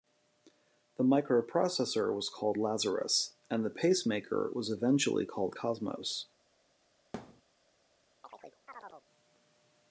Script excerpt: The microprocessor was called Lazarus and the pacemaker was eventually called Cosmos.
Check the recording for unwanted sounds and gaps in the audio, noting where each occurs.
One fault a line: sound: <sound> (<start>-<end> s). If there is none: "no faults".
sound: thud (7.1-7.4 s)
sound: chirp (8.2-9.1 s)